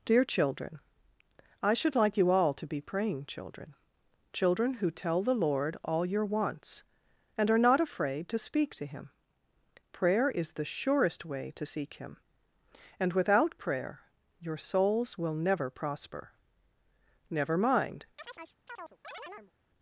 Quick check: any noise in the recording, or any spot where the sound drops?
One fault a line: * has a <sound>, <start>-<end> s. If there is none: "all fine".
* has a chirp, 18.2-19.5 s